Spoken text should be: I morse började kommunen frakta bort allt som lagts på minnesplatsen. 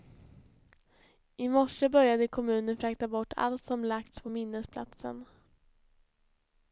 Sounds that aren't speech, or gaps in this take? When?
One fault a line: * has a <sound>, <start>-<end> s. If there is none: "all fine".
all fine